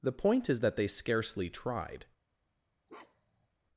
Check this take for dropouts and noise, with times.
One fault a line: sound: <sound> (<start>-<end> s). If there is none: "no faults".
sound: bark (2.9-3.5 s)